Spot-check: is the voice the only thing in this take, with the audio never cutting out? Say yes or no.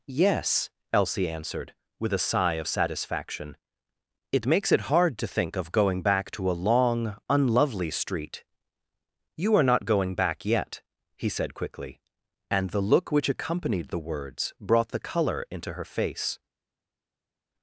yes